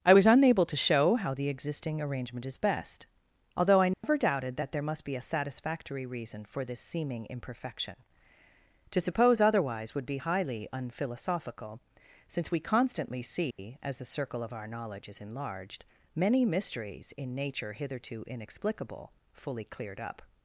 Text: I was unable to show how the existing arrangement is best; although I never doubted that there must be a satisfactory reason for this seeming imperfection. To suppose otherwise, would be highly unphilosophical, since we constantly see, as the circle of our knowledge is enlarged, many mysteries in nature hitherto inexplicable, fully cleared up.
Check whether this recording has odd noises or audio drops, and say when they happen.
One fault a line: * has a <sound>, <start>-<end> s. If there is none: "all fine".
* has a dropout, 3.9-4.0 s
* has a dropout, 13.5-13.6 s